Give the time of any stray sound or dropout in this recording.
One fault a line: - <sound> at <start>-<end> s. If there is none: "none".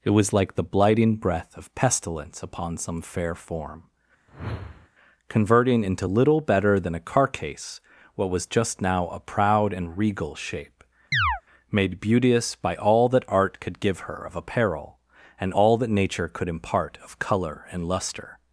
- whoosh at 4.3-4.9 s
- chirp at 11.1-11.4 s